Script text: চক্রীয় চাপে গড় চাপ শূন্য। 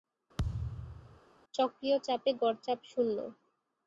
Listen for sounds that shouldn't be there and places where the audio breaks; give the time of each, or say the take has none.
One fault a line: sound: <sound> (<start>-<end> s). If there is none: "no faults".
sound: thud (0.4-1.2 s)